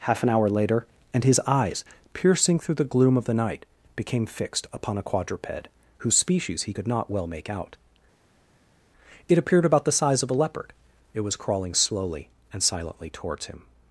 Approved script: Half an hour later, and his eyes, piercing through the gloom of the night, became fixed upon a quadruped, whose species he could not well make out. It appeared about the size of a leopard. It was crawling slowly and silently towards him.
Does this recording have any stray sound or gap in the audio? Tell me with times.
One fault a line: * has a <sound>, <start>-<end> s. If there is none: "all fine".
all fine